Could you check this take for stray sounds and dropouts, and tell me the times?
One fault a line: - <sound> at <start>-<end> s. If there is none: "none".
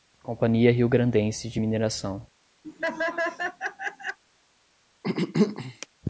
- laugh at 2.6-4.2 s
- throat clearing at 5.0-5.9 s